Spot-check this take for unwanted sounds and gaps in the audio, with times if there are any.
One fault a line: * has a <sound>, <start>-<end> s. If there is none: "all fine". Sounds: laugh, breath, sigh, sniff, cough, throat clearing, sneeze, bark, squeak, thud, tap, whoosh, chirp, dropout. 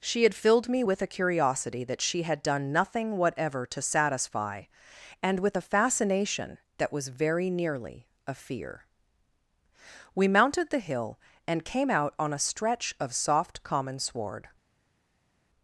all fine